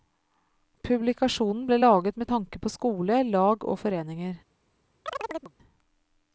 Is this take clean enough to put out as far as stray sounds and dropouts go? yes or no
no